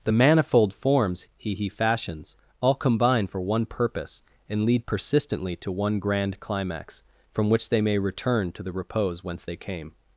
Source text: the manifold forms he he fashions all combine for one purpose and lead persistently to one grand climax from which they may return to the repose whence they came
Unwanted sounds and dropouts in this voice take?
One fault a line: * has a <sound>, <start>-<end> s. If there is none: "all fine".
all fine